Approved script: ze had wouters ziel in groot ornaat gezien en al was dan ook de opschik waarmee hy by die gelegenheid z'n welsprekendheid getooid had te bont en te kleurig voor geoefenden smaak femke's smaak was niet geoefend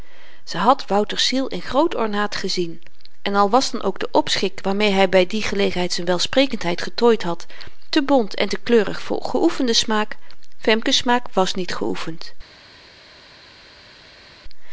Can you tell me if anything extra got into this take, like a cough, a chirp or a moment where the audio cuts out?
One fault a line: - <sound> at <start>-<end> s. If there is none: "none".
none